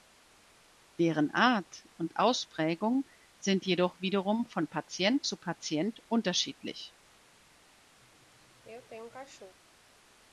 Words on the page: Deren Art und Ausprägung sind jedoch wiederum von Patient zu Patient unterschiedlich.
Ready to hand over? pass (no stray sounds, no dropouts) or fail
fail